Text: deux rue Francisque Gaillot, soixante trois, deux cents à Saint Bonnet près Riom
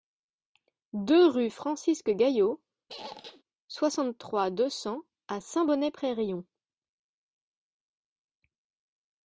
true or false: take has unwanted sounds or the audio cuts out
true